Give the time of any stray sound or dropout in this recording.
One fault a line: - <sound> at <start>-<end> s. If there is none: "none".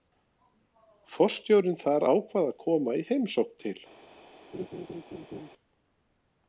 - laugh at 4.5-5.5 s